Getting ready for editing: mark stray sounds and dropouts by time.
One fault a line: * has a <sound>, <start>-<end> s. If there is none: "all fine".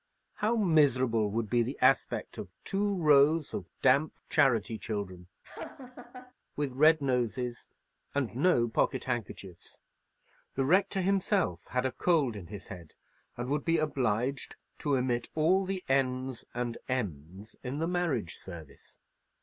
* has a laugh, 5.4-6.3 s